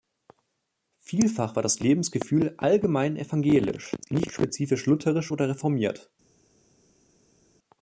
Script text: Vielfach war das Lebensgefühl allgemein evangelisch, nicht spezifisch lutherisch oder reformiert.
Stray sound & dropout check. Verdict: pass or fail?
pass